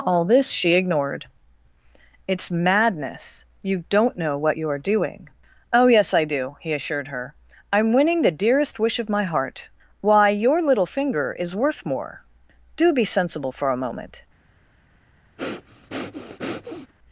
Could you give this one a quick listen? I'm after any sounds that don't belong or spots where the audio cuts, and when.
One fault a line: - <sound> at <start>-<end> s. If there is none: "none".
- breath at 15.4-16.9 s